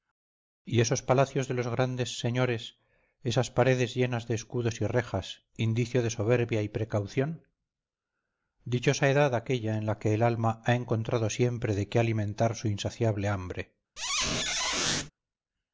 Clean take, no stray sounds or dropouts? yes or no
no